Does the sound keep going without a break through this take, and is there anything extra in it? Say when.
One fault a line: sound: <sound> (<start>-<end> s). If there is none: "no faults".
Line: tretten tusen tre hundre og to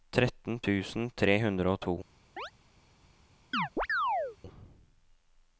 sound: chirp (2.4-2.5 s)
sound: chirp (3.5-4.4 s)